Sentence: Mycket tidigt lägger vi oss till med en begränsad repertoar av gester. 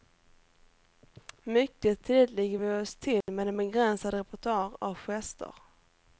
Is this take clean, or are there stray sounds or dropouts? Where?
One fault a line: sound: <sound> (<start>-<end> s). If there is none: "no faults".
sound: dropout (3.2-3.3 s)